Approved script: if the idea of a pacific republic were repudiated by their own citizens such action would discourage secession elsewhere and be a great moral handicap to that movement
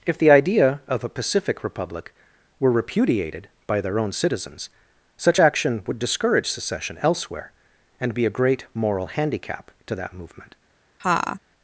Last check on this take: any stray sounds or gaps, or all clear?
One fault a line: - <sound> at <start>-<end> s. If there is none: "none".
- laugh at 11.0-11.4 s